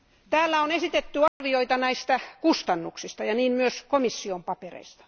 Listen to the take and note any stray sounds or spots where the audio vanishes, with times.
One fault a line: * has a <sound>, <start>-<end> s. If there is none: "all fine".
* has a dropout, 1.3-1.4 s